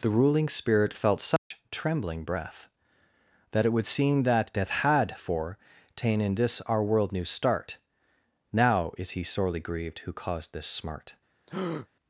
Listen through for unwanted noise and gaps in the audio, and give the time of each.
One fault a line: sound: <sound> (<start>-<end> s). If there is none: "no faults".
sound: dropout (1.4-1.5 s)
sound: breath (11.5-11.9 s)